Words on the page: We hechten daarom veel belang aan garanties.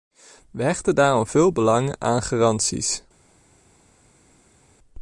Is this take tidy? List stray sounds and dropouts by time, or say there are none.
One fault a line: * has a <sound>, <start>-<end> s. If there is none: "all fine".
all fine